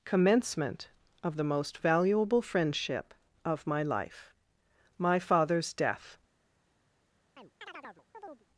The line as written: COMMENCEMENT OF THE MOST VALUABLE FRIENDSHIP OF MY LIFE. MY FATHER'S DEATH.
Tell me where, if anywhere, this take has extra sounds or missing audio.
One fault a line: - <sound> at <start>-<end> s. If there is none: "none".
- chirp at 7.4-8.5 s